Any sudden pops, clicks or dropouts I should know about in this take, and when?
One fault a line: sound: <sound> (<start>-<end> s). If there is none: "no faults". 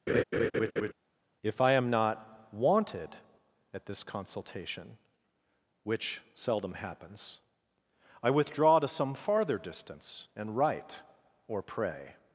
sound: laugh (0.1-0.9 s)